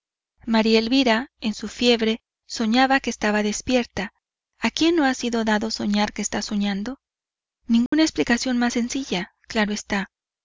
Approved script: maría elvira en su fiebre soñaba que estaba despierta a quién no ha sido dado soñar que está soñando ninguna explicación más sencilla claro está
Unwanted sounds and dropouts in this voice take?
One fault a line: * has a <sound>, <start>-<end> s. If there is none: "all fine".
* has a dropout, 7.9-7.9 s